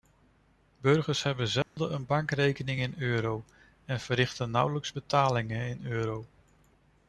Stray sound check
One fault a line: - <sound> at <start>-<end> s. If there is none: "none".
- dropout at 1.6-1.8 s